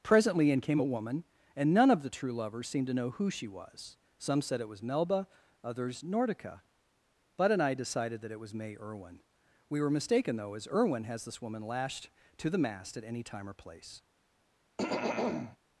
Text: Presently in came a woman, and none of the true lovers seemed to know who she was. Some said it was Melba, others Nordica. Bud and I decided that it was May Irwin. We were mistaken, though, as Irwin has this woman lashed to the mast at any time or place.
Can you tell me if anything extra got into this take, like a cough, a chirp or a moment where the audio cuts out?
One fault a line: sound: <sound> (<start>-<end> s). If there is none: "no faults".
sound: throat clearing (14.8-15.6 s)